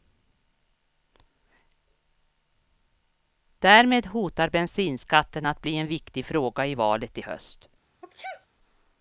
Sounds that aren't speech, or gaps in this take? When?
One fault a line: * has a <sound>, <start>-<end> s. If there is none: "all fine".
* has a sneeze, 8.0-8.5 s